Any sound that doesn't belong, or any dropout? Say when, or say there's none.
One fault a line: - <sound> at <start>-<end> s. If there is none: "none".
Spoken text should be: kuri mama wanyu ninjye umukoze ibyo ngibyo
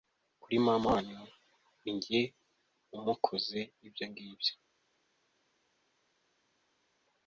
none